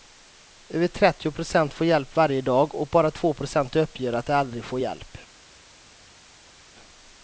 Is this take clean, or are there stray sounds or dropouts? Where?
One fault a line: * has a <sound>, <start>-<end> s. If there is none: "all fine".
all fine